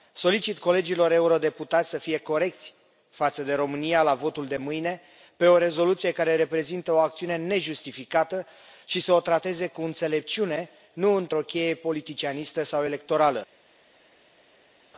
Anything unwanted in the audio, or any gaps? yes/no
no